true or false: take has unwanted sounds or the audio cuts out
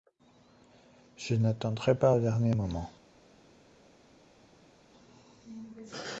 false